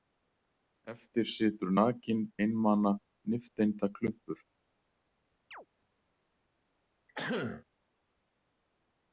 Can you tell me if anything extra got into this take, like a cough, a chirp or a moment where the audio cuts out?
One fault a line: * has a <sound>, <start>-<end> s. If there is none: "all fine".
* has a chirp, 5.5-5.7 s
* has a throat clearing, 7.1-7.6 s